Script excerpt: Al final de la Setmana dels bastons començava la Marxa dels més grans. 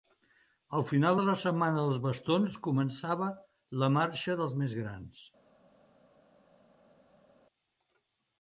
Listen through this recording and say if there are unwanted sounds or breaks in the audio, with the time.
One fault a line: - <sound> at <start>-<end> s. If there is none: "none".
none